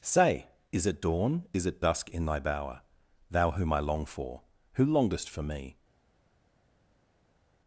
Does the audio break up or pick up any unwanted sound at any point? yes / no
no